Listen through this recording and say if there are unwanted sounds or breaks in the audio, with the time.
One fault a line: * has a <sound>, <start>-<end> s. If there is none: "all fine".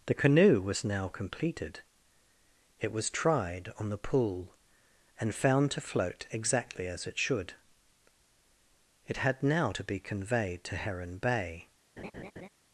* has a laugh, 12.0-12.5 s